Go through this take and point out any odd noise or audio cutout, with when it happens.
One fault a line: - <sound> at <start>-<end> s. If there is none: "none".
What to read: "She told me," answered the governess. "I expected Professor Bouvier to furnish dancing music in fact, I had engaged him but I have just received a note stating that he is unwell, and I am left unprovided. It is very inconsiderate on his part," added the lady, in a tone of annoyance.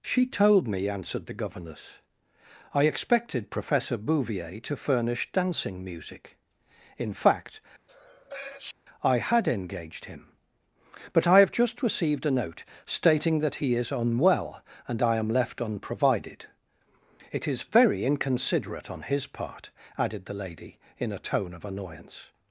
- sneeze at 7.9-8.7 s